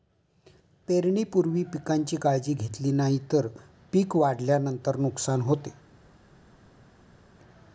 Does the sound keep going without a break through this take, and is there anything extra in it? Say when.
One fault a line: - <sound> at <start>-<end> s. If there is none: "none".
none